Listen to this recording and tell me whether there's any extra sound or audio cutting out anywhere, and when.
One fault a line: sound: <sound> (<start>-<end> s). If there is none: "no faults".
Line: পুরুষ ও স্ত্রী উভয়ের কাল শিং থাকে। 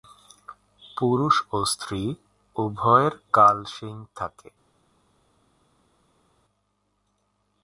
no faults